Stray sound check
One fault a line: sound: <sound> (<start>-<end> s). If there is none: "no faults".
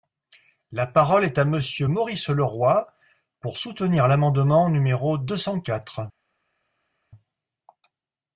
no faults